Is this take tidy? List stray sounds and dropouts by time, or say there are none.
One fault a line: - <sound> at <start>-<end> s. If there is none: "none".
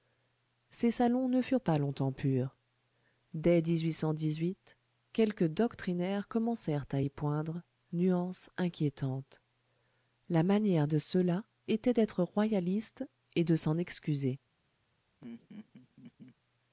- laugh at 15.2-16.4 s